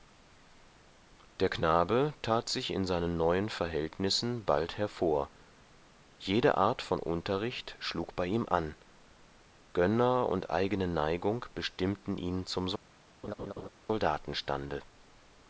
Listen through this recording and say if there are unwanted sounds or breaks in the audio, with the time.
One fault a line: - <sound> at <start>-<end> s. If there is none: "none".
- laugh at 13.2-13.7 s